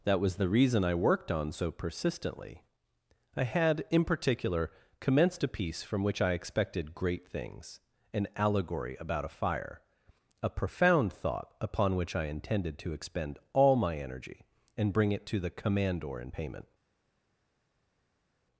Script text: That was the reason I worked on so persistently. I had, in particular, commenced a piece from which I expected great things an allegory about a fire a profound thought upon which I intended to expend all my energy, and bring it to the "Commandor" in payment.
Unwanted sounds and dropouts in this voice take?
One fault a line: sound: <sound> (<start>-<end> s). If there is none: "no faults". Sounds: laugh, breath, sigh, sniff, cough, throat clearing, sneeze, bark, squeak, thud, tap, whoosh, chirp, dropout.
no faults